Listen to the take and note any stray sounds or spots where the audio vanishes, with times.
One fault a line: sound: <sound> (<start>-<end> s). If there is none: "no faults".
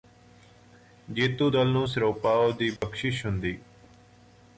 sound: dropout (2.8-2.8 s)